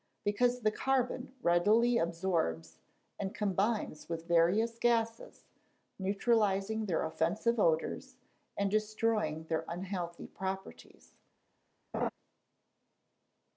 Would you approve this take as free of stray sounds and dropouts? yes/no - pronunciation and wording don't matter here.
no